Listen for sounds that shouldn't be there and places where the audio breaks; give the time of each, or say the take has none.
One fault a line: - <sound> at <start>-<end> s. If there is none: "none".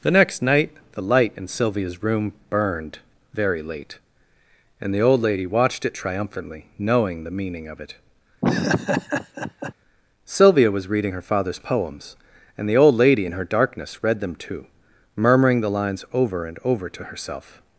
- laugh at 8.4-9.7 s